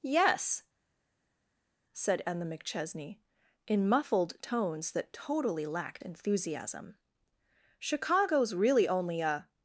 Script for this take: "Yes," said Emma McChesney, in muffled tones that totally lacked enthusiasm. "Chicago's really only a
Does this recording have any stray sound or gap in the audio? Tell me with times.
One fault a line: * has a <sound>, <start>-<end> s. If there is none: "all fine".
all fine